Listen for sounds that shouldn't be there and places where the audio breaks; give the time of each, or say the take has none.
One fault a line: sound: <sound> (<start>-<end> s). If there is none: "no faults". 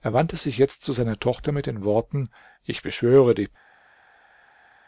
no faults